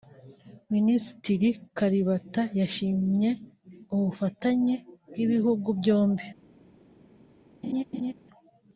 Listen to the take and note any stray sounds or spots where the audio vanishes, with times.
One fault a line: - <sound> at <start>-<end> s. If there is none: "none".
- laugh at 7.6-8.1 s